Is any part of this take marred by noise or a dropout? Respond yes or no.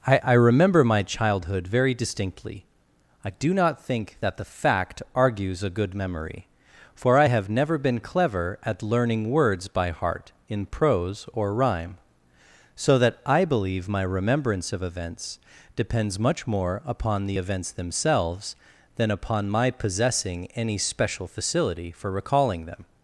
no